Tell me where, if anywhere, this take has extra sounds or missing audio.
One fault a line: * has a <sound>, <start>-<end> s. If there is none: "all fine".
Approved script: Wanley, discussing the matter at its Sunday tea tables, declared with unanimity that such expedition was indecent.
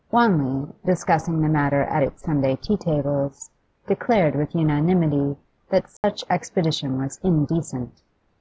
* has a dropout, 6.0-6.0 s